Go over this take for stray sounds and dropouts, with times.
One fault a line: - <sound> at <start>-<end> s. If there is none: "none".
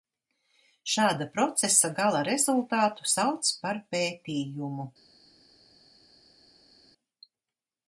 none